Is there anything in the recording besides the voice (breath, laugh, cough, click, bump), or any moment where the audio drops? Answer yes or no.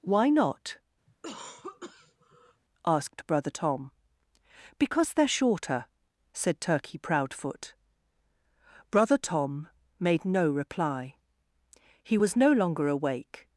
yes